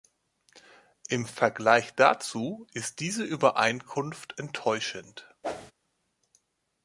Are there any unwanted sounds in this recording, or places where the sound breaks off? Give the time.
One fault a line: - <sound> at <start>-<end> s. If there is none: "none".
- whoosh at 5.4-5.7 s